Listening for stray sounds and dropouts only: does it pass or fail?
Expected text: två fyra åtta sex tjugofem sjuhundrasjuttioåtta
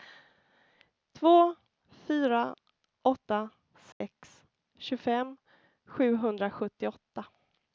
fail